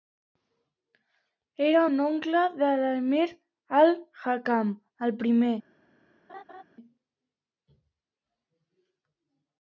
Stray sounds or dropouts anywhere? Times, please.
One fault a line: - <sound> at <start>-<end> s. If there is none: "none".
- laugh at 6.3-6.6 s